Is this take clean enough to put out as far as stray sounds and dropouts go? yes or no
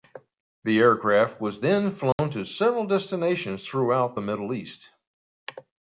no